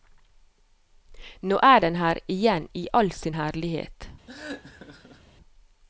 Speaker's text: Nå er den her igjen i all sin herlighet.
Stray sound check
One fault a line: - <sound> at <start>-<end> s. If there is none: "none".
- laugh at 4.3-5.3 s